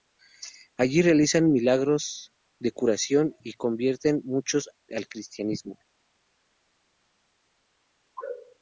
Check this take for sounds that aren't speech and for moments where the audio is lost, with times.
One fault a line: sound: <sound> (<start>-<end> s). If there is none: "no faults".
no faults